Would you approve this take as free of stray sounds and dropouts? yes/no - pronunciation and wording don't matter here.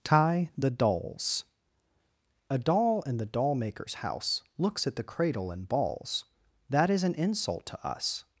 yes